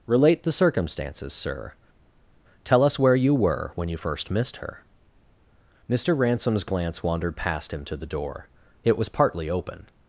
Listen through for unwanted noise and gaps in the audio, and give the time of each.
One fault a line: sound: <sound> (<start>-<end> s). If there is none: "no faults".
no faults